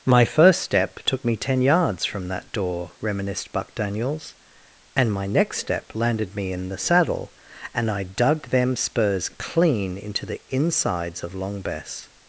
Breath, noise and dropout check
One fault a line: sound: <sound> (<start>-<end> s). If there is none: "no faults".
no faults